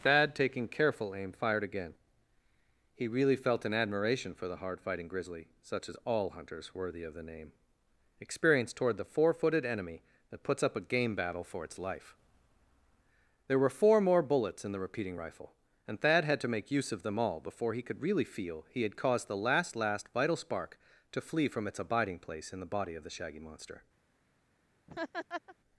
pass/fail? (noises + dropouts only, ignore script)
fail